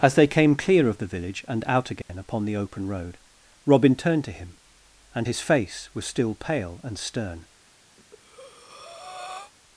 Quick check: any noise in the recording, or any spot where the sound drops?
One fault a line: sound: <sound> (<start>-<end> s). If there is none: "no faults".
sound: dropout (2.0-2.1 s)
sound: breath (8.0-9.5 s)